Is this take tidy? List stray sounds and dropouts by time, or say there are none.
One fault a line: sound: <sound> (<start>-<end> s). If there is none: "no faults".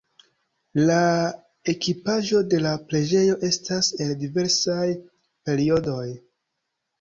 no faults